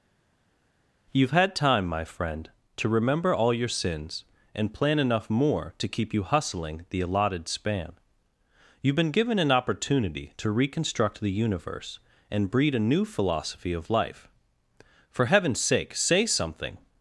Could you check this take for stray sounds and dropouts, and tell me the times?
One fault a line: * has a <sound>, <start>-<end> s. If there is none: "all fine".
all fine